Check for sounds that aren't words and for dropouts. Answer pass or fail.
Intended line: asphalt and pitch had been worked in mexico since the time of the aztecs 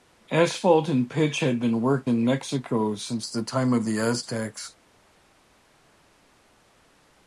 pass